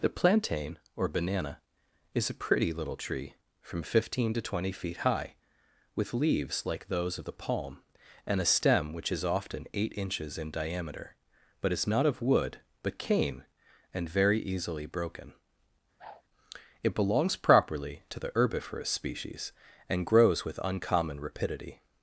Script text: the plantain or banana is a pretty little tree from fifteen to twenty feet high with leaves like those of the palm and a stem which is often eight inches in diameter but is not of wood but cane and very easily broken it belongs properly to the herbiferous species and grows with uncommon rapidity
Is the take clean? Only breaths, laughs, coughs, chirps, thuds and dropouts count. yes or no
no